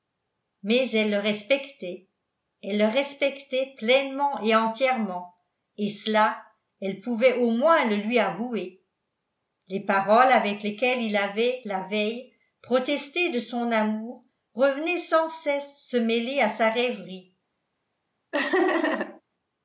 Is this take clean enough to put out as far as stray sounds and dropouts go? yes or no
no